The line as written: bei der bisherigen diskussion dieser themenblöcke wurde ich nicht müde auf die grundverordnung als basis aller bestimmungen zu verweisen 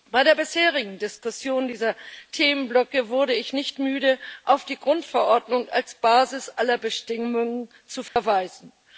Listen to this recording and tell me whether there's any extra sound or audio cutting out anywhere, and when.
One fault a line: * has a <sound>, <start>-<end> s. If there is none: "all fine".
* has a dropout, 8.1-8.2 s